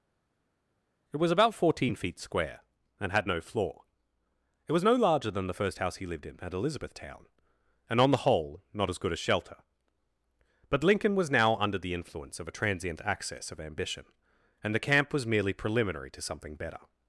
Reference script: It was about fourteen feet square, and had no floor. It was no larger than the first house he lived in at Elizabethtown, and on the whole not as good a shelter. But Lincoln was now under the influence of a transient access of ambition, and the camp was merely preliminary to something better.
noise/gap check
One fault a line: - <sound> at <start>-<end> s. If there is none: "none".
none